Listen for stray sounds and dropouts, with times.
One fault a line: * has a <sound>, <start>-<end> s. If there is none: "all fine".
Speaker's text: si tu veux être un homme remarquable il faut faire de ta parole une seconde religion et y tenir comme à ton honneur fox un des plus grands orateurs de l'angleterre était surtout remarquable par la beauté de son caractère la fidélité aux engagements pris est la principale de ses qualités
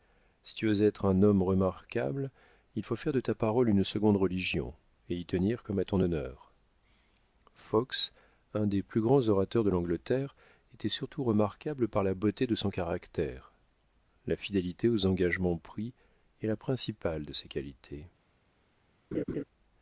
* has a laugh, 19.1-19.4 s